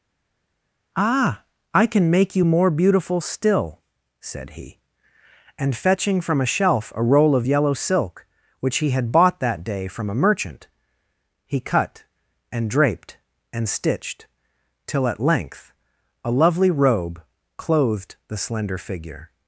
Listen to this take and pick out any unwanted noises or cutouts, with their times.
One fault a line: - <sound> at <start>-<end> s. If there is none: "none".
none